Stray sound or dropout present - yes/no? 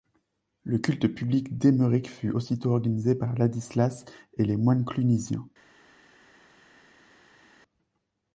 no